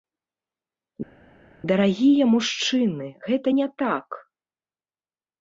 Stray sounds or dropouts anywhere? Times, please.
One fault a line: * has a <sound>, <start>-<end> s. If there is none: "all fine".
all fine